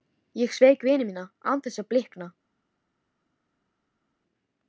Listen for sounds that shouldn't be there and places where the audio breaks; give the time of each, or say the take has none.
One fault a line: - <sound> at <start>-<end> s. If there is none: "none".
none